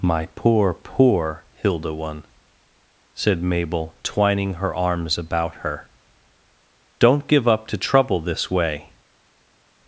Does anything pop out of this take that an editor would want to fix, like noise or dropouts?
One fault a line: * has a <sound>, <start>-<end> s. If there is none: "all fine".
all fine